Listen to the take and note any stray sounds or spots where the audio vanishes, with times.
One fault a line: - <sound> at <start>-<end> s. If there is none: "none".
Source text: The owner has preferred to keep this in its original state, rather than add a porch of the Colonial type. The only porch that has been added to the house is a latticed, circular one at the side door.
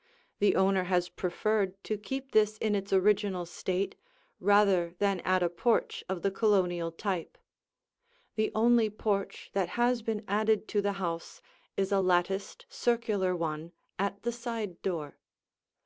none